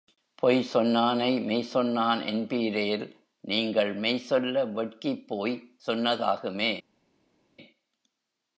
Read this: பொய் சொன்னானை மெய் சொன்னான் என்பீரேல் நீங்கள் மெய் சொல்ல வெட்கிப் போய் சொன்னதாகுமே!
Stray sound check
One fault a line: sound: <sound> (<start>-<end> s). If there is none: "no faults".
no faults